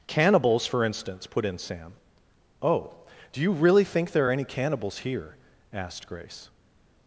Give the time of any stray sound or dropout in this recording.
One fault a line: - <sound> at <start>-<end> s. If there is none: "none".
none